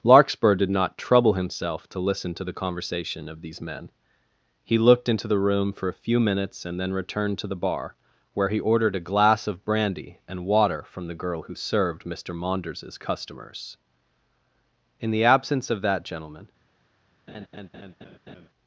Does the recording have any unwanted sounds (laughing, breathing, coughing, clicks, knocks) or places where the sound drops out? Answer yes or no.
yes